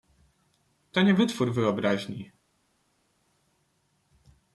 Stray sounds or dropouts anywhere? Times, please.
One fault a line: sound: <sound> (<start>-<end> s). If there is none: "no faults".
no faults